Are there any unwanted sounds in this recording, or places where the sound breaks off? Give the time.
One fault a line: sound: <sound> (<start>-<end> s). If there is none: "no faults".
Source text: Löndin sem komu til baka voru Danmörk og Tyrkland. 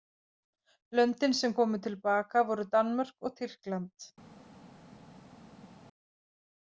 no faults